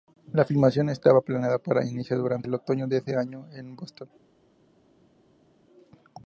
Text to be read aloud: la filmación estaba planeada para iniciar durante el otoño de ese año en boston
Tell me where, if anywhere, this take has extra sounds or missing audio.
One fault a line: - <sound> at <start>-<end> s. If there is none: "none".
none